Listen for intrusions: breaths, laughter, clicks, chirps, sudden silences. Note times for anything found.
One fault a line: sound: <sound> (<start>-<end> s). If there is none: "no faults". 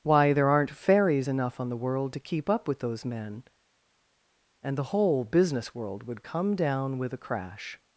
no faults